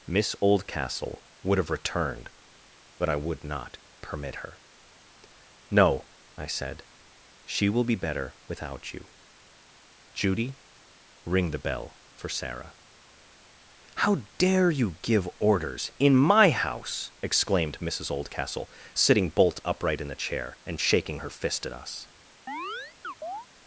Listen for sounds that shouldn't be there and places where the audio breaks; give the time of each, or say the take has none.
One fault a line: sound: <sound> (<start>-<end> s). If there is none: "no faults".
sound: chirp (22.5-23.5 s)